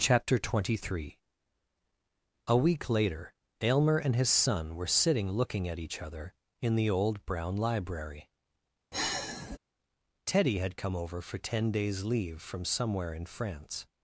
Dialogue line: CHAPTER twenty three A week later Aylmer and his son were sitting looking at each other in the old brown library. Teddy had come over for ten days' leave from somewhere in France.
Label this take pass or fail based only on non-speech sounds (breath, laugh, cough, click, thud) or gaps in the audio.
fail